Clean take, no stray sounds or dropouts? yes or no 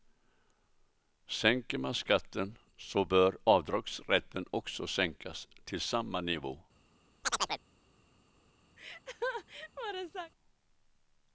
no